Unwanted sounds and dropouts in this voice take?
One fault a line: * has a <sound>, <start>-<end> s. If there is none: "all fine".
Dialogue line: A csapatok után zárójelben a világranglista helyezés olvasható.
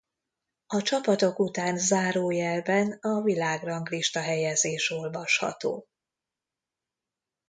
all fine